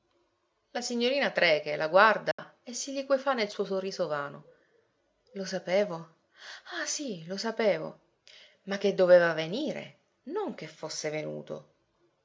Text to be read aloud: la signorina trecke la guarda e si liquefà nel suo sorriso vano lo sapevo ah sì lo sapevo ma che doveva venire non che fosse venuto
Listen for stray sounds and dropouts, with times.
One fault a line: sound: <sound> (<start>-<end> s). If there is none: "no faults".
sound: dropout (2.3-2.4 s)